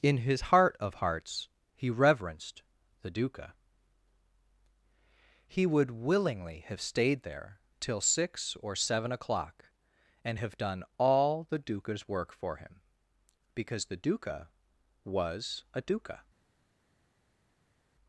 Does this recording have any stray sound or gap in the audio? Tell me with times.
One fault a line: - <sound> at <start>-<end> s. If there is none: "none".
none